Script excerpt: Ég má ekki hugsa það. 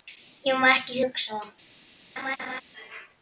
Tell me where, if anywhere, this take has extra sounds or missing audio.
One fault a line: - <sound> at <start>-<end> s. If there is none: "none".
- laugh at 2.2-2.6 s